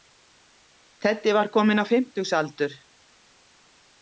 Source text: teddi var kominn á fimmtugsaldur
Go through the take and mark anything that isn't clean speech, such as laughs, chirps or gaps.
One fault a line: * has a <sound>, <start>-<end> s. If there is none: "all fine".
all fine